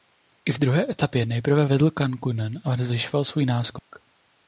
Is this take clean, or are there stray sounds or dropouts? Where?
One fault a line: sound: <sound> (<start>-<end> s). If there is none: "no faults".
sound: dropout (3.8-3.9 s)